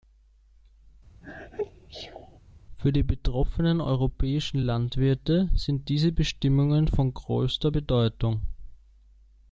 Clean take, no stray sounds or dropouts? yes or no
no